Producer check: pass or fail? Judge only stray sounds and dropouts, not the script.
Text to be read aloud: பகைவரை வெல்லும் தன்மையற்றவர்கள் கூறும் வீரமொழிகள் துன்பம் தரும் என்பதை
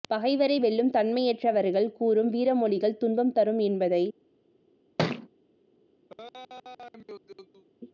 fail